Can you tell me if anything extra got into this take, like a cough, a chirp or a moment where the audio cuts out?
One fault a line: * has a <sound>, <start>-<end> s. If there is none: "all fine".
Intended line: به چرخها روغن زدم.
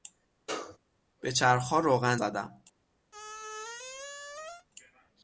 * has a sneeze, 0.5-0.8 s
* has a squeak, 3.1-4.7 s